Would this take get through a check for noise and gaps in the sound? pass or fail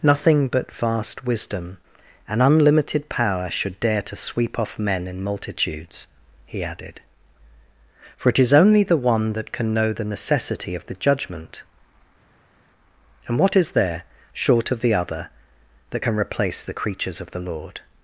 pass